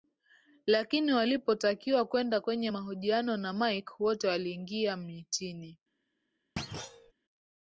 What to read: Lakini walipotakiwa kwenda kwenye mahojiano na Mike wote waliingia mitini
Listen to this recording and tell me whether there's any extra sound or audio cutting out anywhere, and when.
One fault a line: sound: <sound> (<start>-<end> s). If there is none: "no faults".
sound: thud (6.6-7.1 s)